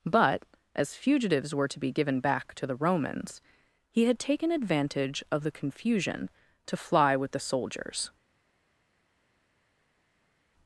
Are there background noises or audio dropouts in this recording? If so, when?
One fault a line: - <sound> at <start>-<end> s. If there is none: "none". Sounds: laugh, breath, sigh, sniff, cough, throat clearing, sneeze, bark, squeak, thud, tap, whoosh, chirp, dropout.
none